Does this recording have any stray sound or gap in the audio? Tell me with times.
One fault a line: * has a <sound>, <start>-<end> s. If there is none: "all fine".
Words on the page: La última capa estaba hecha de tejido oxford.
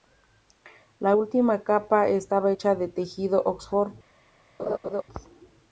* has a laugh, 4.6-5.0 s